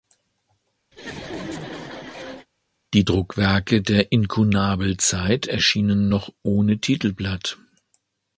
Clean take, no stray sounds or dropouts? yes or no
no